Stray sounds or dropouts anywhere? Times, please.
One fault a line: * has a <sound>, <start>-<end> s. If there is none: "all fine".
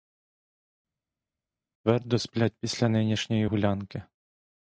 all fine